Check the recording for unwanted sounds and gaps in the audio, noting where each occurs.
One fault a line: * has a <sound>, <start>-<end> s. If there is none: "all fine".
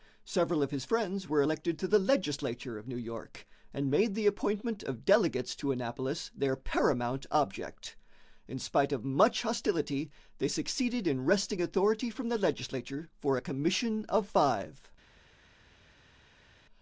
all fine